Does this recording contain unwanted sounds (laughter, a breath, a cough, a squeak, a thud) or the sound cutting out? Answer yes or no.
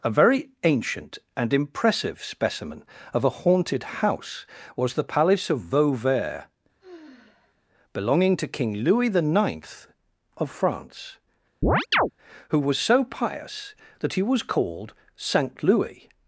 yes